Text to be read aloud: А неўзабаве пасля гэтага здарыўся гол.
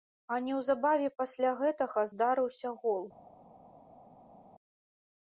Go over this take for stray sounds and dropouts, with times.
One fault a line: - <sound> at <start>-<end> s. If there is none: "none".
none